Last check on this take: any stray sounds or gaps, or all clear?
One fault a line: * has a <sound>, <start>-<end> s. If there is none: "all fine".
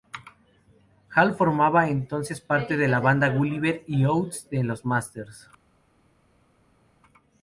all fine